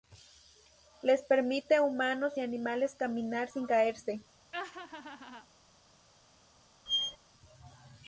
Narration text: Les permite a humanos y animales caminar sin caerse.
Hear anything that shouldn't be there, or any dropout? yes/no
yes